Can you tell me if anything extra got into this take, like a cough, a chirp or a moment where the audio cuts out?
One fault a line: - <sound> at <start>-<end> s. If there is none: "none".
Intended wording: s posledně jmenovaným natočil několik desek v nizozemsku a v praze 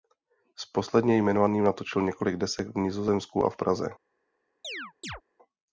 - chirp at 4.6-5.2 s